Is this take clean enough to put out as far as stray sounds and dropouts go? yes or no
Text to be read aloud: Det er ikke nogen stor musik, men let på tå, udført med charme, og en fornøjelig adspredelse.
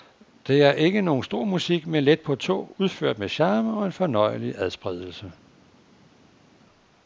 yes